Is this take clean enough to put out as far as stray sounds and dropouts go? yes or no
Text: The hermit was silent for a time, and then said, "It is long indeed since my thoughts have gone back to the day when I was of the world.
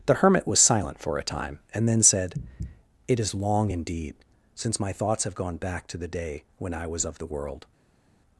yes